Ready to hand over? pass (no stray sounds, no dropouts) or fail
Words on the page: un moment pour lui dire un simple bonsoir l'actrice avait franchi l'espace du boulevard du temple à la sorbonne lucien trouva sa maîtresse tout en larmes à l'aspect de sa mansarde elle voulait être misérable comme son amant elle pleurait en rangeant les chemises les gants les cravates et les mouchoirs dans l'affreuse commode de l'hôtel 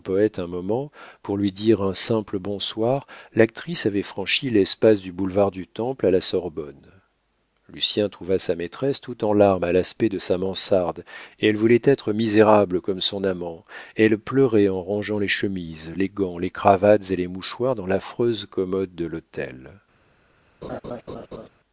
fail